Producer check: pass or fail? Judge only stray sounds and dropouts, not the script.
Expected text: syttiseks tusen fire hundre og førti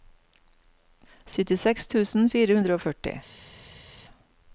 pass